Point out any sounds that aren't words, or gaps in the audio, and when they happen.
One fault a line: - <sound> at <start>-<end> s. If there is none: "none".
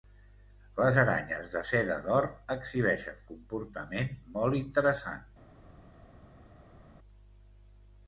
none